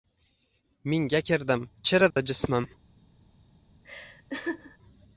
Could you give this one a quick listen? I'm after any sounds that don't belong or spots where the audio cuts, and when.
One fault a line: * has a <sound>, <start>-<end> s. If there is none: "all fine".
* has a dropout, 2.1-2.2 s
* has a laugh, 3.8-4.8 s